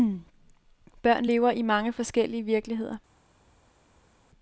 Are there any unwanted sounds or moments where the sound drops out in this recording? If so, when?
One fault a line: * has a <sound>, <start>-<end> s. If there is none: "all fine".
all fine